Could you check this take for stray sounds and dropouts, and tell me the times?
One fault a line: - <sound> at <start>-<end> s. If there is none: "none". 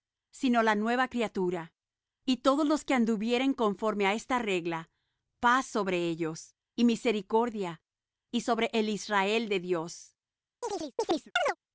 - chirp at 10.6-11.6 s